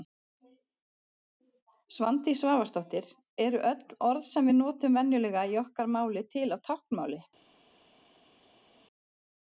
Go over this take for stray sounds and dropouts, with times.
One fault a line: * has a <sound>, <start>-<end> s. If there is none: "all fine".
all fine